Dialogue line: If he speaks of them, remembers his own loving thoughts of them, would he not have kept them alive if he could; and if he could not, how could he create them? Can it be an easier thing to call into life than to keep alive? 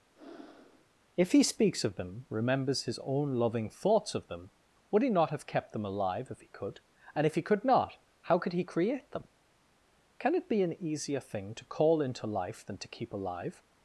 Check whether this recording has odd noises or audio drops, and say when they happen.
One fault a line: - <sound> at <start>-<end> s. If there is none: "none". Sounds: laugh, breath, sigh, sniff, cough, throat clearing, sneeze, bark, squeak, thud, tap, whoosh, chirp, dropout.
- breath at 0.2-0.9 s